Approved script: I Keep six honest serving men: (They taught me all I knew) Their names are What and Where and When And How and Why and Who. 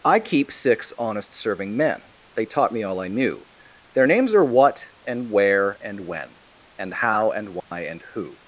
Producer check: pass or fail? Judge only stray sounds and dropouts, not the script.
fail